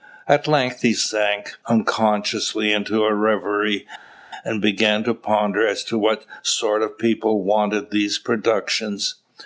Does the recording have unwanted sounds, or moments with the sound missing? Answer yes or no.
no